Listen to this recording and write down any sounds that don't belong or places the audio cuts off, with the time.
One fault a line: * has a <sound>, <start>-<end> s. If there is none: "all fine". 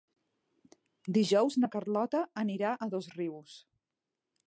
all fine